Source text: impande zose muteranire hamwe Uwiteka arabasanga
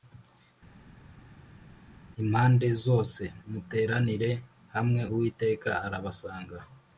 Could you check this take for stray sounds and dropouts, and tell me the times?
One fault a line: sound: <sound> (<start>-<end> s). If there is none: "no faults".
no faults